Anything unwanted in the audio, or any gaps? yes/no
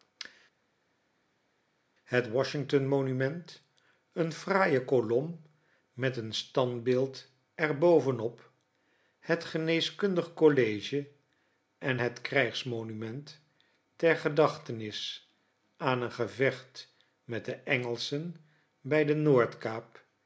no